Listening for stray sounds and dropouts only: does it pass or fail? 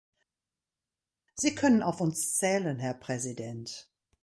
pass